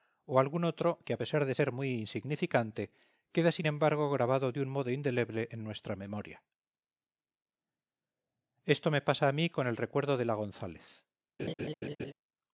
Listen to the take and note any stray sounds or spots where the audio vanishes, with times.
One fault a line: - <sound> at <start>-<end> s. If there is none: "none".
- laugh at 11.4-12.1 s